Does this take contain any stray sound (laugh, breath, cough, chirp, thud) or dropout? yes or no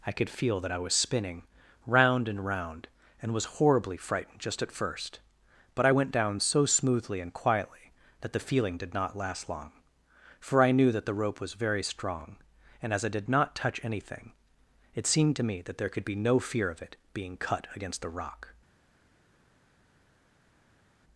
no